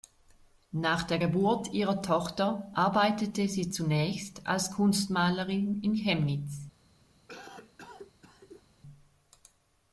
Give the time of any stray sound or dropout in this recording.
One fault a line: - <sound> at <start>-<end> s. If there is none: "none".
- cough at 7.3-8.6 s